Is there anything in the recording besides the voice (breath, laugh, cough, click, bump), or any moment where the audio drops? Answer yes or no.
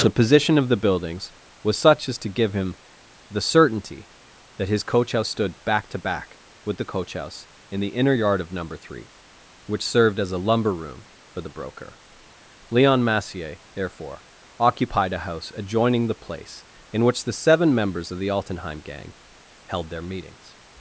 no